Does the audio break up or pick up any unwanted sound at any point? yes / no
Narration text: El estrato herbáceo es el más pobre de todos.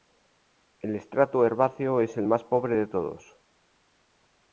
no